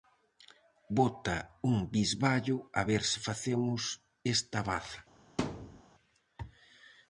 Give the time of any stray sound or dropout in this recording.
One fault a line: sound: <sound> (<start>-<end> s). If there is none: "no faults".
sound: thud (5.4-5.8 s)